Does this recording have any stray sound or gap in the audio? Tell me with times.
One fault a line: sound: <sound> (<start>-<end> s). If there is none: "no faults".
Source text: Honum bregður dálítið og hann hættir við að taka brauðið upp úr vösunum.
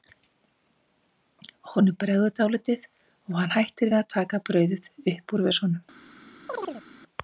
sound: chirp (6.5-6.8 s)